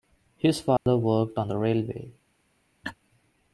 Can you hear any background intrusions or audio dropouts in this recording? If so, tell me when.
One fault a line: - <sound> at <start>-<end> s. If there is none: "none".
- dropout at 0.8-0.9 s
- laugh at 2.8-2.9 s